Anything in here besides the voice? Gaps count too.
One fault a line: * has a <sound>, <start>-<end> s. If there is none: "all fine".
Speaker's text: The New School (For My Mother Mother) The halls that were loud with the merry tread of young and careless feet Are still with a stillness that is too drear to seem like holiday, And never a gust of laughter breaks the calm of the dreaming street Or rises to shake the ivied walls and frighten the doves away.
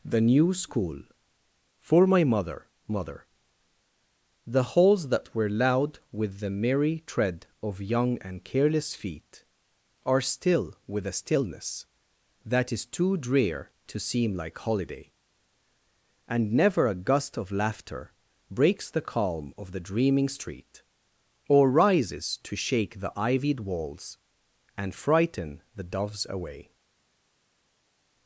all fine